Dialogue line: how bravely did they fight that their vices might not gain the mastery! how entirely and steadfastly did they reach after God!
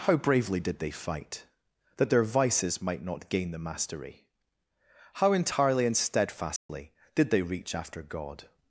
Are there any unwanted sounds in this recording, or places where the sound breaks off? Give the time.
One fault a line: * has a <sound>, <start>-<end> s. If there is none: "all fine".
* has a dropout, 6.6-6.7 s